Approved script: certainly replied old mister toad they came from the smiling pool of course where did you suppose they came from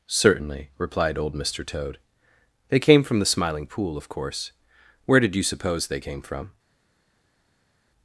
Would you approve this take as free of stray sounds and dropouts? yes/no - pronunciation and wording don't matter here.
yes